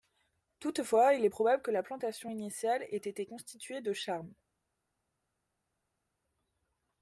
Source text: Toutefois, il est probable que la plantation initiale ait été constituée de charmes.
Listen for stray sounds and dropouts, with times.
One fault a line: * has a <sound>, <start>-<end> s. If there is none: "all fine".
all fine